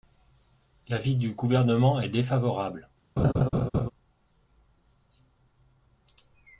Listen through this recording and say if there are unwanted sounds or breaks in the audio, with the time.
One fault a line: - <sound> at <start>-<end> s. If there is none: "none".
- laugh at 3.2-3.9 s